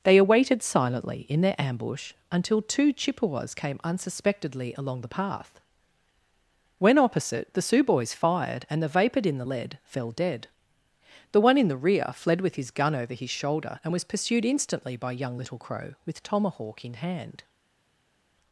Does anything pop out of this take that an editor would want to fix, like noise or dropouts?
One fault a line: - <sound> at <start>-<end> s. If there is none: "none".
none